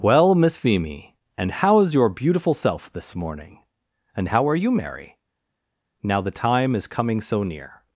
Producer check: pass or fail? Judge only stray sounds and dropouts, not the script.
pass